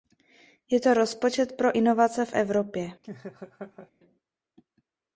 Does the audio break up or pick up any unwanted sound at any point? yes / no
yes